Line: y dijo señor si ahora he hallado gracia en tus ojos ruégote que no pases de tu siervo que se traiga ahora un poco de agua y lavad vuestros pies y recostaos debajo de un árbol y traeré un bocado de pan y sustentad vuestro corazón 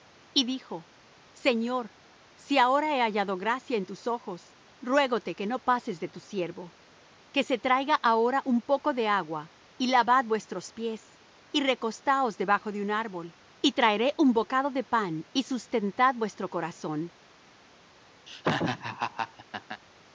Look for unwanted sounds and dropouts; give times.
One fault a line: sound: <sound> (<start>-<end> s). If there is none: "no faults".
sound: laugh (18.3-19.8 s)